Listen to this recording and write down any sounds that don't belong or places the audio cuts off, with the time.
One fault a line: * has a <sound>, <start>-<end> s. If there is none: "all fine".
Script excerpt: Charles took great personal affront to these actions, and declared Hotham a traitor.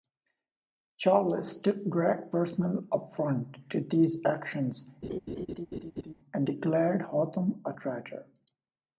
* has a laugh, 5.0-6.1 s